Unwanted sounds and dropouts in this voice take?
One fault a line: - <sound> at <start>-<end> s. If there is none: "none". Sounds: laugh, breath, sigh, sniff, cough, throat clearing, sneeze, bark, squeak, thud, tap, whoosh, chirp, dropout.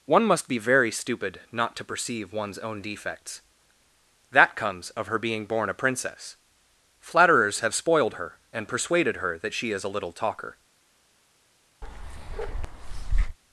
- bark at 11.8-13.4 s